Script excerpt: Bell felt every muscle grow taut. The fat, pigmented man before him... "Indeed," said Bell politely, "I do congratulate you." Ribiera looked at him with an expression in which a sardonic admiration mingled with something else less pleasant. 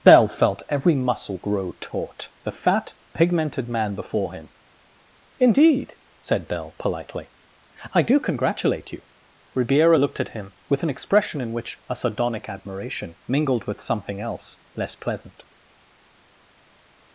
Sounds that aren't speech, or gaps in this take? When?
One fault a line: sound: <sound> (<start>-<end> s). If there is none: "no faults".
no faults